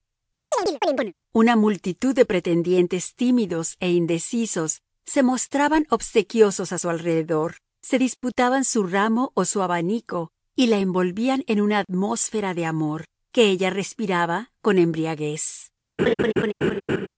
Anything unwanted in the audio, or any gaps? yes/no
yes